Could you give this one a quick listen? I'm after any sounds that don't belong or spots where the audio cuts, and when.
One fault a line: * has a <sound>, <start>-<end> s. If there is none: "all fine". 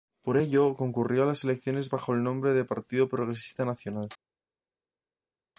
all fine